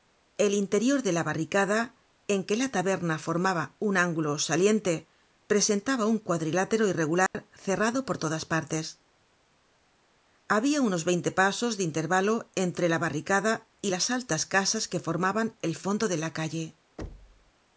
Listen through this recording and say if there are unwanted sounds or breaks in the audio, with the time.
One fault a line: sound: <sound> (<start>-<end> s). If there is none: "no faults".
sound: dropout (7.3-7.3 s)
sound: thud (17.0-17.5 s)